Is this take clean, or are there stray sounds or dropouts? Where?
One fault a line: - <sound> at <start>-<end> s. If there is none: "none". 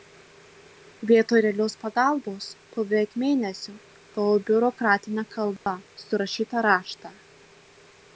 - dropout at 5.6-5.7 s